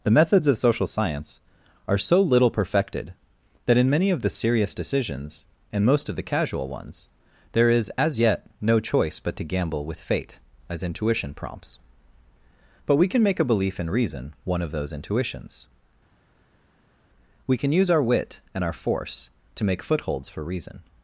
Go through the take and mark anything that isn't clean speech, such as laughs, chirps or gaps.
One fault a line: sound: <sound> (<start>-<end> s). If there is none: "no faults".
no faults